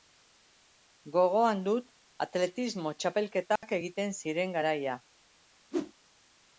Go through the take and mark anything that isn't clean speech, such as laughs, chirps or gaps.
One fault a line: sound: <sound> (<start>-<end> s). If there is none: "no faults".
sound: dropout (3.6-3.6 s)
sound: whoosh (5.7-5.9 s)